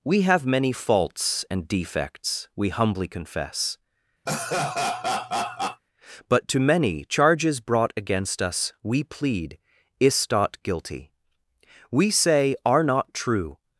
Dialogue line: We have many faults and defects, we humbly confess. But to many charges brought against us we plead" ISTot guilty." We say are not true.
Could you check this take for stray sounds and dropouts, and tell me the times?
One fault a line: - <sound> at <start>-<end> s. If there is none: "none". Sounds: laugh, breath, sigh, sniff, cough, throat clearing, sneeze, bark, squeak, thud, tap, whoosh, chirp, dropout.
- laugh at 4.3-5.8 s